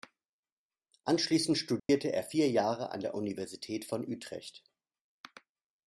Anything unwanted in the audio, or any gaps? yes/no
yes